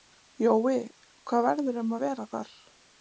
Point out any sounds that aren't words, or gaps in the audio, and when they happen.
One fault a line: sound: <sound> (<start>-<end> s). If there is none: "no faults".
no faults